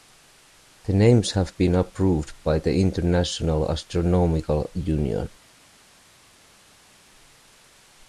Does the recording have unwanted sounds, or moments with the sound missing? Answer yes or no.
no